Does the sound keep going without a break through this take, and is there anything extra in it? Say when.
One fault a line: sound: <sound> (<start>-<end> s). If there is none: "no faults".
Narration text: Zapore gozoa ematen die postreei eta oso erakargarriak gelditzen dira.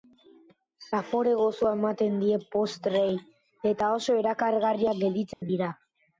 sound: dropout (5.3-5.4 s)